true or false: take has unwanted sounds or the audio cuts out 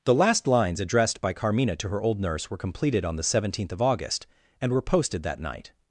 false